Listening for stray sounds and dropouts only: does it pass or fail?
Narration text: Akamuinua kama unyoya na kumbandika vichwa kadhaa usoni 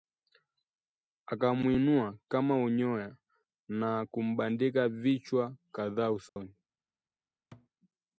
fail